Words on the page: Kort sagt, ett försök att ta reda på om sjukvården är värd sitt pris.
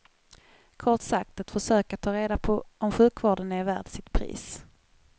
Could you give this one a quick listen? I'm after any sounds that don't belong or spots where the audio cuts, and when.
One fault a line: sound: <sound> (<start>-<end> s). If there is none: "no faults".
no faults